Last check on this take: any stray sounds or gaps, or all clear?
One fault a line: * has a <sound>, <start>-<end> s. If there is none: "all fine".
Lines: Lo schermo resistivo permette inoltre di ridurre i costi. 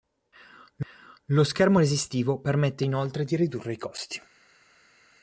all fine